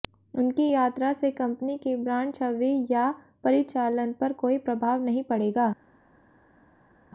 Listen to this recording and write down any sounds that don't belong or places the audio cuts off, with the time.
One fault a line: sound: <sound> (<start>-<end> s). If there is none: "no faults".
no faults